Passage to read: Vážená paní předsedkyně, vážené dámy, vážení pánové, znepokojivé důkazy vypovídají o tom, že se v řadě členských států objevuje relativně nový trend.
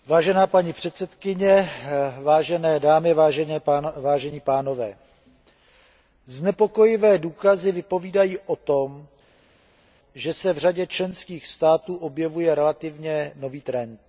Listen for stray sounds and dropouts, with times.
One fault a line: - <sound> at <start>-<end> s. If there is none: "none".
none